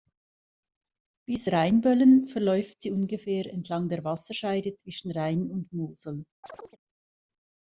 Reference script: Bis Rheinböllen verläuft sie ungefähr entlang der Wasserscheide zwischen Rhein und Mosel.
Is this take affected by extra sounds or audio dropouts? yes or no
yes